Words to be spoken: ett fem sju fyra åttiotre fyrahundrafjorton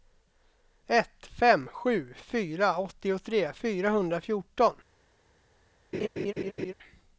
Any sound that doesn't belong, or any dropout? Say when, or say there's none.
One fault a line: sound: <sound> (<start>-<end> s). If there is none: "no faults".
sound: laugh (5.9-6.7 s)